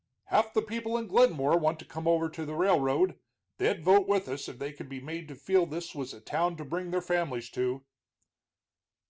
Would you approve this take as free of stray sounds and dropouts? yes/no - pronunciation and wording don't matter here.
yes